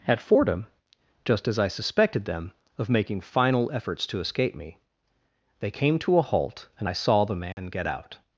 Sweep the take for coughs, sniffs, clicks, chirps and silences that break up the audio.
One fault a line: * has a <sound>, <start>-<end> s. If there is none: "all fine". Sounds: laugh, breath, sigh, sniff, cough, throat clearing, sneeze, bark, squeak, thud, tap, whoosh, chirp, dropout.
* has a dropout, 7.5-7.6 s